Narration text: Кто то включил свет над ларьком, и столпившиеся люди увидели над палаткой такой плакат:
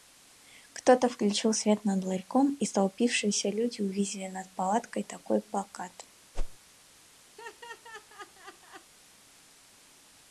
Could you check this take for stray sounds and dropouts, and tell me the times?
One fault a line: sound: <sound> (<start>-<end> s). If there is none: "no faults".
sound: whoosh (6.3-6.6 s)
sound: laugh (7.4-8.9 s)